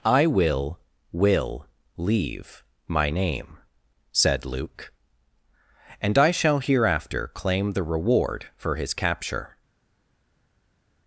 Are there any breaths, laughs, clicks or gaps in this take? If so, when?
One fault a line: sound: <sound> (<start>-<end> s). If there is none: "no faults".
no faults